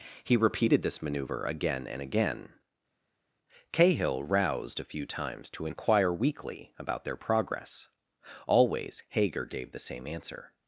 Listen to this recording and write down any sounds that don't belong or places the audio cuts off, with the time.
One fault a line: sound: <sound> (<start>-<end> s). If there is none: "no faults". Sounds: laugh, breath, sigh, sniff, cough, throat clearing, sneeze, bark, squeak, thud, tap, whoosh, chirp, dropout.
no faults